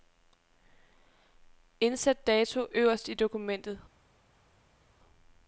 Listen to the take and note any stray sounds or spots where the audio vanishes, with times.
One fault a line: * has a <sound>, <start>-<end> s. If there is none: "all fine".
all fine